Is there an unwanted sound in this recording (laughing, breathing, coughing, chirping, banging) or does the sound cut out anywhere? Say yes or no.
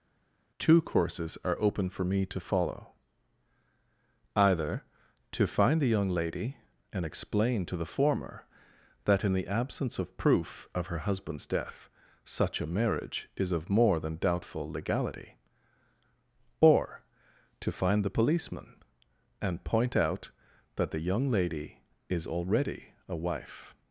no